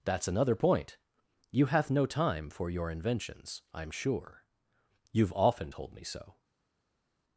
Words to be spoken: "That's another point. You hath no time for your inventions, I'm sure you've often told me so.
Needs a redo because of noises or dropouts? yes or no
no